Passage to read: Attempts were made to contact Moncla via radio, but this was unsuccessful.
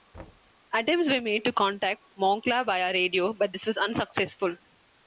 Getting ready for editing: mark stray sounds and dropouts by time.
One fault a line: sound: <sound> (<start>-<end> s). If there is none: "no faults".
sound: thud (0.1-0.5 s)